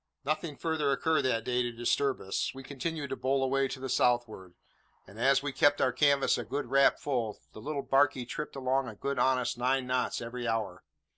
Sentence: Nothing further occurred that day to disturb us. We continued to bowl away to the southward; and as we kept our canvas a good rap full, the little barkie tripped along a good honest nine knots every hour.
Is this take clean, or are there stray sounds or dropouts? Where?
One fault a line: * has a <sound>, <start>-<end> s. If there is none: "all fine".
all fine